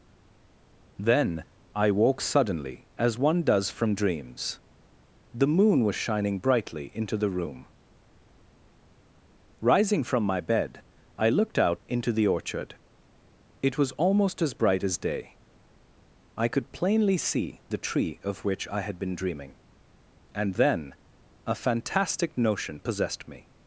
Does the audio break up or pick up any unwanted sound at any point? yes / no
no